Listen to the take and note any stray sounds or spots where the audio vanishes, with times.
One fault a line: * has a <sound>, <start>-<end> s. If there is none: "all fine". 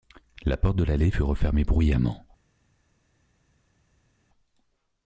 all fine